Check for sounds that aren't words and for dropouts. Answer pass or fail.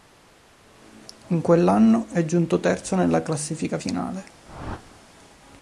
fail